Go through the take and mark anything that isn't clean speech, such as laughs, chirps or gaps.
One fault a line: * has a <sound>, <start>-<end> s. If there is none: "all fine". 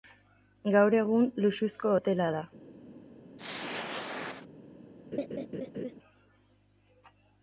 * has a throat clearing, 3.4-4.5 s
* has a laugh, 5.1-5.9 s